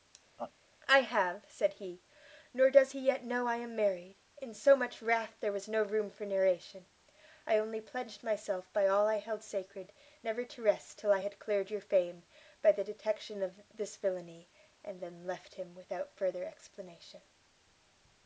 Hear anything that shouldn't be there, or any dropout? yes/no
yes